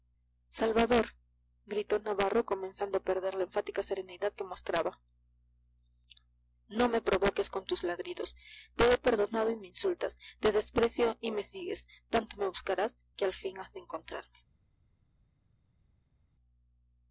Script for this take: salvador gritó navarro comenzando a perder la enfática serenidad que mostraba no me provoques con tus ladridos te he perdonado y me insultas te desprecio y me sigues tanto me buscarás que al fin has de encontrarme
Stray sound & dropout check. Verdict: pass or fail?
pass